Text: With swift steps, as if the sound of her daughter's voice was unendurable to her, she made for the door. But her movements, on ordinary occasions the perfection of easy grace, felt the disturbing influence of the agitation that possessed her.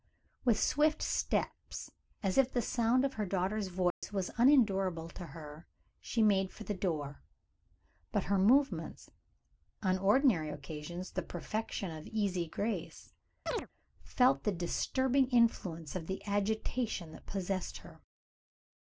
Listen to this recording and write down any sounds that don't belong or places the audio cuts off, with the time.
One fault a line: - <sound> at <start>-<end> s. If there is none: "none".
- dropout at 3.9-4.0 s
- chirp at 13.5-13.7 s